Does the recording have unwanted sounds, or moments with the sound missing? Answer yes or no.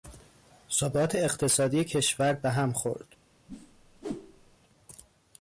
yes